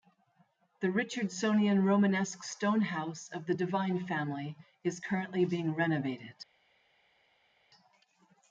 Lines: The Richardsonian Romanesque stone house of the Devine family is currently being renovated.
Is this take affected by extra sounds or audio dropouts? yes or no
no